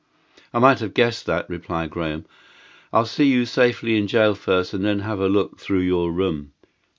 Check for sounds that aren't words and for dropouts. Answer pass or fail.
pass